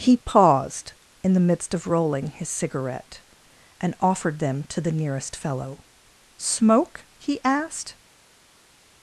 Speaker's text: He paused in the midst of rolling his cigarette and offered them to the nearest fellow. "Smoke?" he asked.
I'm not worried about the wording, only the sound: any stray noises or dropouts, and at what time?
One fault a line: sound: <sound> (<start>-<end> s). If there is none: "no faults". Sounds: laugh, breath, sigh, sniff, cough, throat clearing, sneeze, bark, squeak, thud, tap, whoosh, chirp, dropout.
no faults